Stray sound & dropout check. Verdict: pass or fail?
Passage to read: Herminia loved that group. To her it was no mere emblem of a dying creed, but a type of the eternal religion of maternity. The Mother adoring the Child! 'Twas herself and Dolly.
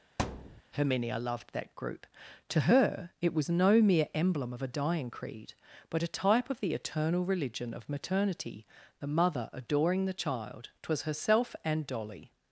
fail